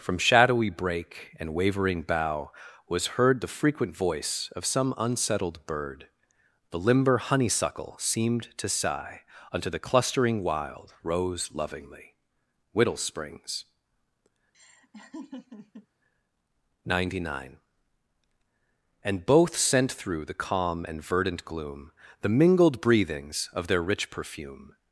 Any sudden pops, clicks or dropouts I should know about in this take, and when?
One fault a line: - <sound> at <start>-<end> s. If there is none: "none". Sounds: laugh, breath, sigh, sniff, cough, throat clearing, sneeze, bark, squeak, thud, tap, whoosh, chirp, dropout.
- laugh at 14.5-15.9 s